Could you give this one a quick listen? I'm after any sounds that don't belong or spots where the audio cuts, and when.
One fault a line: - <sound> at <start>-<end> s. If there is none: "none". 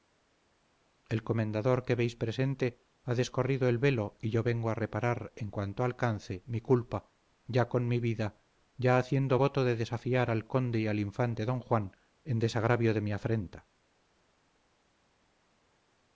none